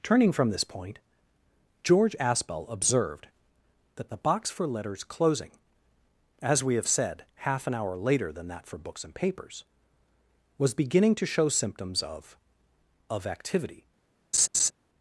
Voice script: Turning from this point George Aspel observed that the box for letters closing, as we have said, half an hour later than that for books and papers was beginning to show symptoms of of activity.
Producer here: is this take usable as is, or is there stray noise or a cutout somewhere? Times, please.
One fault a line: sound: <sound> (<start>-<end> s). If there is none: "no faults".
sound: laugh (14.3-14.7 s)